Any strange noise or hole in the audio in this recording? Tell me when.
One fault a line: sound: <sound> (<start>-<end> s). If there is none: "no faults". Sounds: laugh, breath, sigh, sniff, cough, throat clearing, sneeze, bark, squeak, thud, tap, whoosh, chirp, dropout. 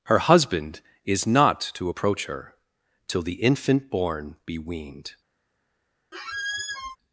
sound: squeak (6.1-7.0 s)